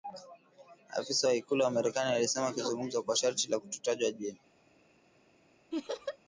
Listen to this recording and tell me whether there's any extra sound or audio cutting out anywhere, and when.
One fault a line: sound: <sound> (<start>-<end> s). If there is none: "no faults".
sound: laugh (5.7-6.2 s)